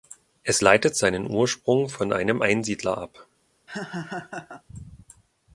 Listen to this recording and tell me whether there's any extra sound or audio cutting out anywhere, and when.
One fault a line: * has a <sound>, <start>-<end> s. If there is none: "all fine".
* has a laugh, 3.7-4.6 s